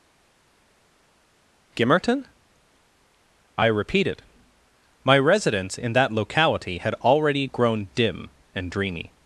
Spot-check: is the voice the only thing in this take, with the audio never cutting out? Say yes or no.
yes